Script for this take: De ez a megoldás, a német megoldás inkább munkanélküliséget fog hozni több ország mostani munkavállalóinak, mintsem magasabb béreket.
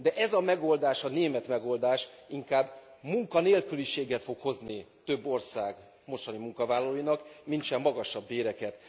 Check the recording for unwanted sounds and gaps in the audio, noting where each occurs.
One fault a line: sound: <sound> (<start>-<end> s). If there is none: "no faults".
no faults